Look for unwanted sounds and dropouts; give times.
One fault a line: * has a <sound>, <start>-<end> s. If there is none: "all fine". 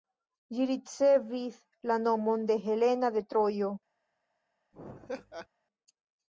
* has a laugh, 4.7-5.5 s